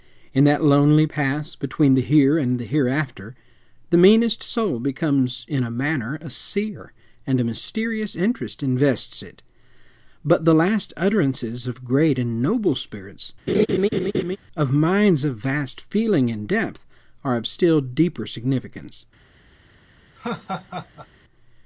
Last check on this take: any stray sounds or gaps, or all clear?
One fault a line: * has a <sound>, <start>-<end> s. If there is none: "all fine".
* has a laugh, 13.5-14.4 s
* has a laugh, 20.2-21.1 s